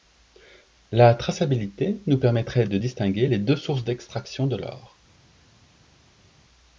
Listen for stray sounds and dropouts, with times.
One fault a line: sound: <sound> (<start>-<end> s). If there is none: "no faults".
no faults